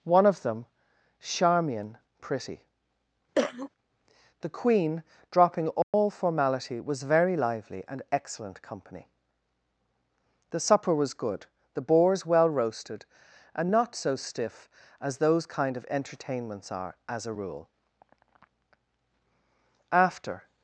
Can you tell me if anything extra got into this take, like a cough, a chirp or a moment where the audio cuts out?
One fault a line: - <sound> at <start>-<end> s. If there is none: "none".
- cough at 3.3-3.7 s
- dropout at 5.8-5.9 s